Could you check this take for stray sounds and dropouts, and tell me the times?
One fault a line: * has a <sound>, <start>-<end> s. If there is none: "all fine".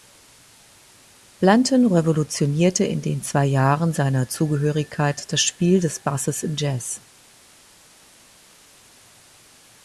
all fine